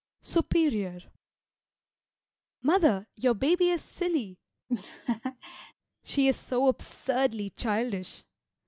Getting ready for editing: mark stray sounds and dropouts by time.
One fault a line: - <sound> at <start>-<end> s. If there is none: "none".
- laugh at 4.7-5.7 s